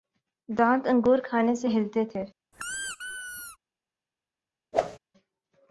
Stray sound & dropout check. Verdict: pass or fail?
fail